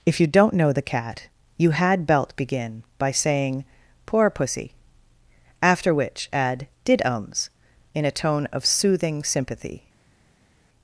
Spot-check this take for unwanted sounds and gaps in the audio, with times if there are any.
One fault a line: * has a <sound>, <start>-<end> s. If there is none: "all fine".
all fine